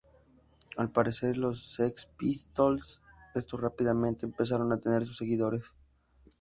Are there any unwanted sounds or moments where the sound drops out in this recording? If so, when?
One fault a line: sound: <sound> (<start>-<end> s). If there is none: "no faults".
no faults